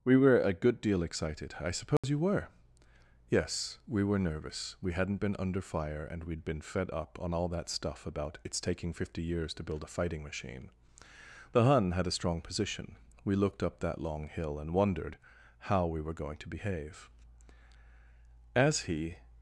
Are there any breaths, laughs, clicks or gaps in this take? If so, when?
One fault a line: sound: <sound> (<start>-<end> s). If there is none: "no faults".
sound: dropout (2.0-2.0 s)